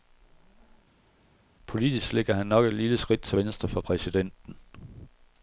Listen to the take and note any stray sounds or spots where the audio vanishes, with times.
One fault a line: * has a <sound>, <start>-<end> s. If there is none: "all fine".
all fine